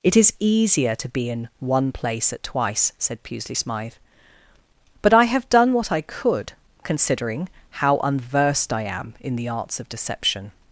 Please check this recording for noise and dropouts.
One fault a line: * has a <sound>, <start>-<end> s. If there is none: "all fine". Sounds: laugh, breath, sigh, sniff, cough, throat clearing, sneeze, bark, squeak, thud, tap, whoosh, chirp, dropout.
all fine